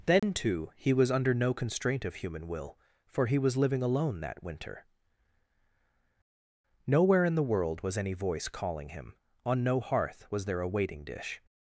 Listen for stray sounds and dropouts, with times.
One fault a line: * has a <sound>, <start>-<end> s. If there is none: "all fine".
* has a dropout, 0.2-0.2 s